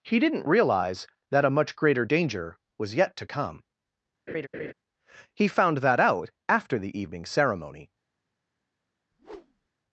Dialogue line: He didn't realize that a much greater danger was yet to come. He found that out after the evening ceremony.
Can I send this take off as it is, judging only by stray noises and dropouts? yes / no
no